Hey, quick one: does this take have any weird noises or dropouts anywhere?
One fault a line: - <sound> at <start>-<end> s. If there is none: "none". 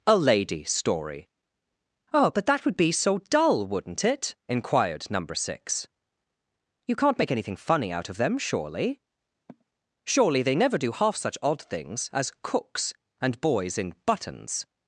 - sigh at 9.5-9.7 s